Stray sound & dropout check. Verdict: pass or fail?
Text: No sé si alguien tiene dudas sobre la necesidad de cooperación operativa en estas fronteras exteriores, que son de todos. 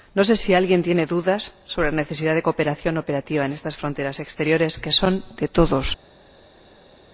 pass